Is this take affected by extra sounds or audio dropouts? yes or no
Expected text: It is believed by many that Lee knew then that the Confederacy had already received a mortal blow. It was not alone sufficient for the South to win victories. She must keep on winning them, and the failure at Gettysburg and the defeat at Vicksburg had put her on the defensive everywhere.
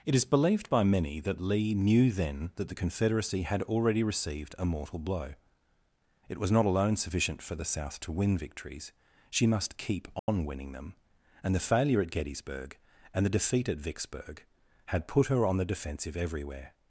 yes